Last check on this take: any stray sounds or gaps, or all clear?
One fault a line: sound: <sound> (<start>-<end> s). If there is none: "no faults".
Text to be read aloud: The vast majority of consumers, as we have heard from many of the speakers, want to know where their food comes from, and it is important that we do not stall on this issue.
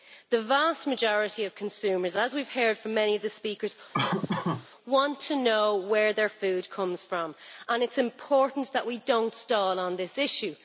sound: laugh (3.9-4.7 s)